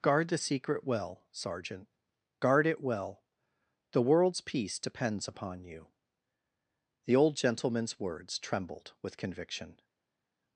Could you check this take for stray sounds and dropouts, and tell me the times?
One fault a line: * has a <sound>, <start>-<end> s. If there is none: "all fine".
all fine